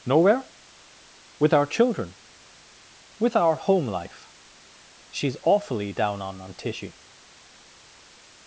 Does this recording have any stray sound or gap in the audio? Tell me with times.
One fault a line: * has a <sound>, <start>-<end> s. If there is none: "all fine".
all fine